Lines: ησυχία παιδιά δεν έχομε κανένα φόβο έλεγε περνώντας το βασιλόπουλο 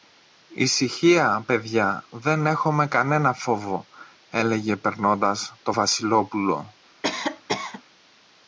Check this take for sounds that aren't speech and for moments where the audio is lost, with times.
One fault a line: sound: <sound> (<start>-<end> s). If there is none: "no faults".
sound: cough (7.0-7.8 s)